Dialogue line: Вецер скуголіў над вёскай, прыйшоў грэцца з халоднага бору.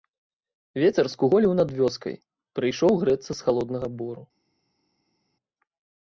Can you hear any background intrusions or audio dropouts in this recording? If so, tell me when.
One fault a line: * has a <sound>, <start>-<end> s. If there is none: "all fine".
all fine